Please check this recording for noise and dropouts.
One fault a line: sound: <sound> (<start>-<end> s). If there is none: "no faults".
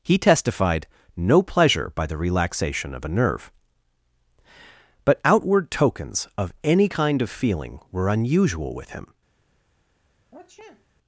sound: sniff (10.3-10.9 s)